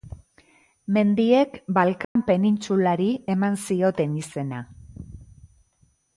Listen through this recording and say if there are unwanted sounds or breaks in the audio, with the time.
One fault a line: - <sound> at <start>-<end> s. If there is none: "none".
- dropout at 2.0-2.2 s